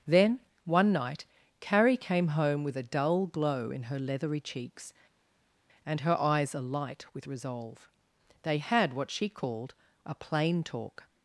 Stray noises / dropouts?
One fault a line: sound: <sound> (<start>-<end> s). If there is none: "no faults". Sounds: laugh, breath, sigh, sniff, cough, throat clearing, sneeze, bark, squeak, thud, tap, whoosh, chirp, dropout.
no faults